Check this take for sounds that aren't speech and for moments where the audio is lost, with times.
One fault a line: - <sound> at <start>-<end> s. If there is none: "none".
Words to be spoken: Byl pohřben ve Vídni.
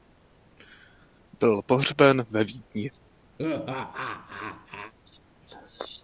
- laugh at 3.4-4.9 s